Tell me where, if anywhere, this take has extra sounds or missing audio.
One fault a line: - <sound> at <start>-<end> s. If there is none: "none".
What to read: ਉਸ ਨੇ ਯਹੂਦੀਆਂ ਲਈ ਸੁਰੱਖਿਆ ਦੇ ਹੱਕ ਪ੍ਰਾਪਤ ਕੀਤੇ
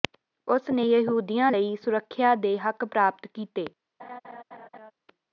- laugh at 4.0-4.9 s